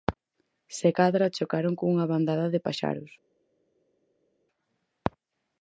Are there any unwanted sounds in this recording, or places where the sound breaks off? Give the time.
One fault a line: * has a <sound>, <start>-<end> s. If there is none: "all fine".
all fine